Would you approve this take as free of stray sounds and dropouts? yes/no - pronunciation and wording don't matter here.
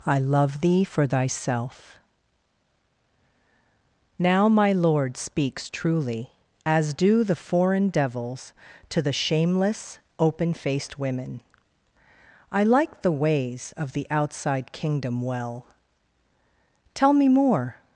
yes